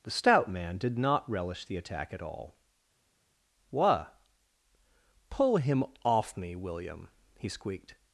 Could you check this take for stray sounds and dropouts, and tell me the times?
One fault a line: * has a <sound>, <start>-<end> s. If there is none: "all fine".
all fine